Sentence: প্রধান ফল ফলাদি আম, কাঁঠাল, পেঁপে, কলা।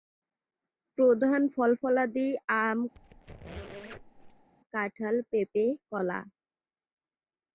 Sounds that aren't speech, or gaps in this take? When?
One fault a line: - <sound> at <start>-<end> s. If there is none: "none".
- squeak at 2.9-4.5 s